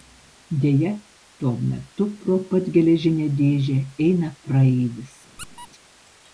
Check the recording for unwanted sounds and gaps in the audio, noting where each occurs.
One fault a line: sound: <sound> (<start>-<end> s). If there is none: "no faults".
sound: squeak (5.4-5.7 s)